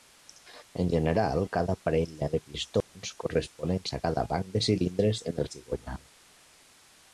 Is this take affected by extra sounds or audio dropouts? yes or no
yes